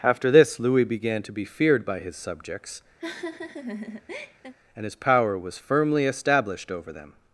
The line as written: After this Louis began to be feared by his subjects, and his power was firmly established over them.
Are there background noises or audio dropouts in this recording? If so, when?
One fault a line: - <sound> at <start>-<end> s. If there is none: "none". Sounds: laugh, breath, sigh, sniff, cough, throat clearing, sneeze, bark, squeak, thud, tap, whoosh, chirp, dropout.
- laugh at 3.0-4.5 s